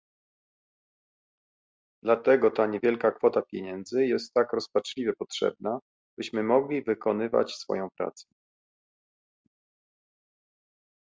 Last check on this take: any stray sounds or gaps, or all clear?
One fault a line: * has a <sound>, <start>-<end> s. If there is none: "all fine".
all fine